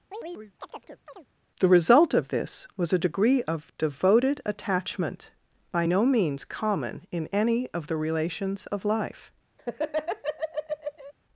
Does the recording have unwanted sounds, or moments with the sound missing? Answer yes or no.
yes